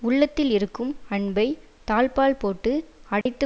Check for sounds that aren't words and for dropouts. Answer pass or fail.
fail